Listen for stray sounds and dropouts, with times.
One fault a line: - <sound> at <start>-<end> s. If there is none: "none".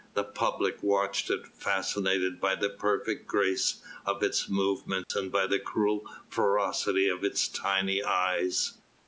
- dropout at 5.0-5.1 s